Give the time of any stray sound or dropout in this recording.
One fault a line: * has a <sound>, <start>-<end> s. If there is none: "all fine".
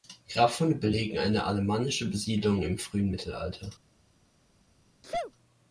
* has a sneeze, 5.0-5.3 s